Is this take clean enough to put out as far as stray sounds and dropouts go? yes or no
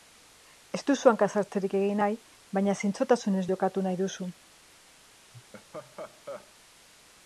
no